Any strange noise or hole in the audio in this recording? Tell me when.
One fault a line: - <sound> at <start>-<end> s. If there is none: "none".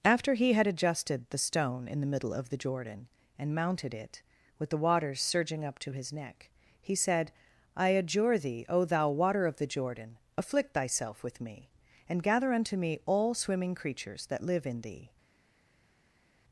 none